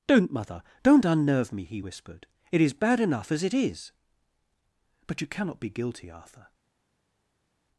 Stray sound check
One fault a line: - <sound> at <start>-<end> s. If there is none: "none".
none